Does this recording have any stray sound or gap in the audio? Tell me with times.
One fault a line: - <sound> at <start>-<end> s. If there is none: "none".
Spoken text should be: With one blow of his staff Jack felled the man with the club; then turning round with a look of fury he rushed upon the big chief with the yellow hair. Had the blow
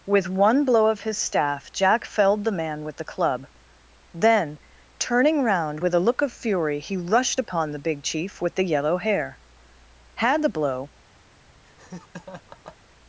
- laugh at 11.6-12.8 s